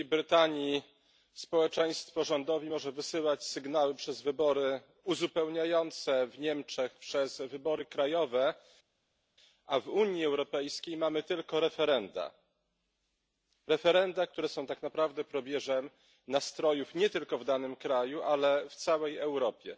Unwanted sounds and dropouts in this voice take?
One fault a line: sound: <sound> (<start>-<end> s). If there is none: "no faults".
no faults